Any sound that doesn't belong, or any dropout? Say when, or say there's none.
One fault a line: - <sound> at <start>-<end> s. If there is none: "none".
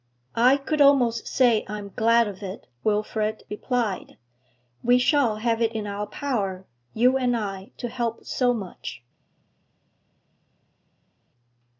none